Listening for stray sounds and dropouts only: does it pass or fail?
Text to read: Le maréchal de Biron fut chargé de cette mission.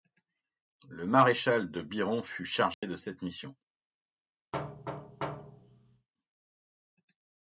fail